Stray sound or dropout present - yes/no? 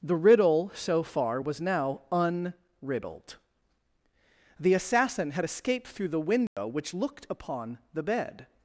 yes